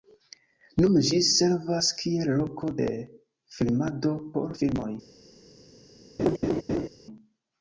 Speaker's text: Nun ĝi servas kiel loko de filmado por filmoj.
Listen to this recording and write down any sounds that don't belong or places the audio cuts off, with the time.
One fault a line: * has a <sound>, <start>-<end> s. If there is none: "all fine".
* has a laugh, 6.2-6.9 s